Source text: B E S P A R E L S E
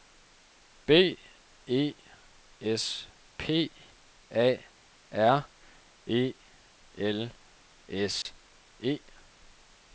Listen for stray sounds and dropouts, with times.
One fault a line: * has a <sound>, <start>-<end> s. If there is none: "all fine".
* has a dropout, 8.2-8.3 s